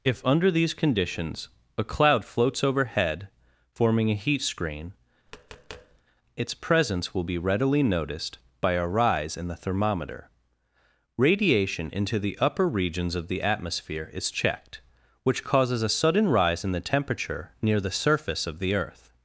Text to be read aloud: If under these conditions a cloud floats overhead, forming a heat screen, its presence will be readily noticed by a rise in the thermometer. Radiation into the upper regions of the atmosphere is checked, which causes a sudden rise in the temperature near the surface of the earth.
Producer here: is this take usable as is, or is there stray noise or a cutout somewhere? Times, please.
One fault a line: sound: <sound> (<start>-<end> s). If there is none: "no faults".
sound: tap (5.3-6.0 s)